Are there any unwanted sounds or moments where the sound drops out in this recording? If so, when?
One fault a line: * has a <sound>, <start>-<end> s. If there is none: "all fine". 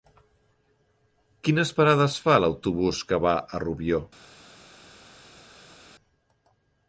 all fine